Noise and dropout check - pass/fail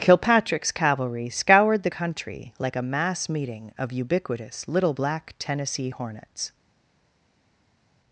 pass